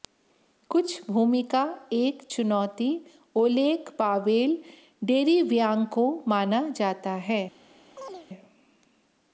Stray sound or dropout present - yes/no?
yes